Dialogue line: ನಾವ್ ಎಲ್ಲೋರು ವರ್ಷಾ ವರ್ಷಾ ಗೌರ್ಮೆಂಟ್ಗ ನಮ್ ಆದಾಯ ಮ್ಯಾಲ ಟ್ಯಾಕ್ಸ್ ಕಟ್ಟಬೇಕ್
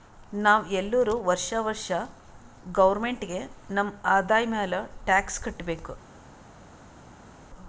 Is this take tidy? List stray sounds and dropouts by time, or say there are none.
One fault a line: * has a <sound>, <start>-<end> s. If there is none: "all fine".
all fine